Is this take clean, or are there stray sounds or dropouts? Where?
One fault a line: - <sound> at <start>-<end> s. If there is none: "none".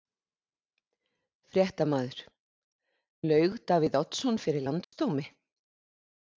- dropout at 4.8-4.9 s